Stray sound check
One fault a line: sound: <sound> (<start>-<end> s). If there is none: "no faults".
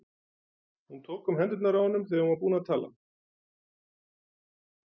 no faults